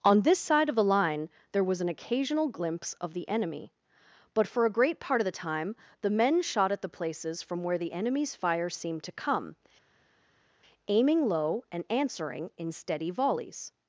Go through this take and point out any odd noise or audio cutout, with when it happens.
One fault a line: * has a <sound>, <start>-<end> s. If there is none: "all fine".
all fine